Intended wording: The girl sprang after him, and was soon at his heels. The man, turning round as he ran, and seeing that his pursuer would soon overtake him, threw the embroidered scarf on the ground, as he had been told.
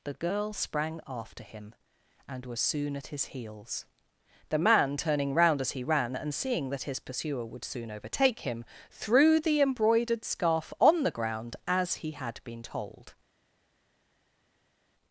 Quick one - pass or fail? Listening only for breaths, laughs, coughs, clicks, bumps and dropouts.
pass